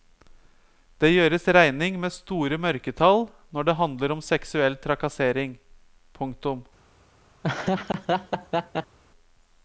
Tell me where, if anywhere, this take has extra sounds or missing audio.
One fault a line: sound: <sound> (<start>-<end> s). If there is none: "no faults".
sound: laugh (7.4-9.0 s)